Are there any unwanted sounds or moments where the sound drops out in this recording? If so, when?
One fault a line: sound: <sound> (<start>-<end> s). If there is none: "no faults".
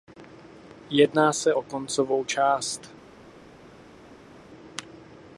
no faults